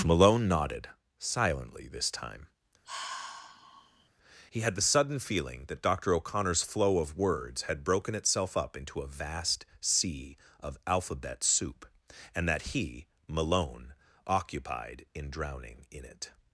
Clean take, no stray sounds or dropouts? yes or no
no